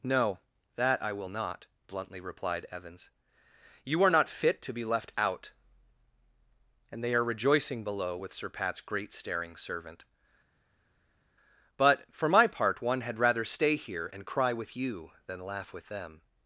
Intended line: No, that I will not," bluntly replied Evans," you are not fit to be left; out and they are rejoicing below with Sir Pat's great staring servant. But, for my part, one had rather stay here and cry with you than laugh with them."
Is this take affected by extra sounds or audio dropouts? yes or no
no